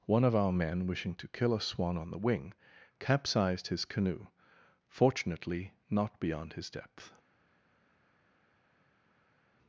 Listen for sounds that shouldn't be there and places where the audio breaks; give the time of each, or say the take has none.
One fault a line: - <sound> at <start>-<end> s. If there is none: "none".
none